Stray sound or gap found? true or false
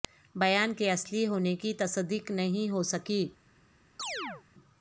true